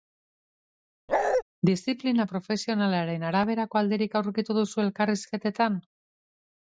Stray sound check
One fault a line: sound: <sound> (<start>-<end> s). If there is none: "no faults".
sound: bark (1.1-1.4 s)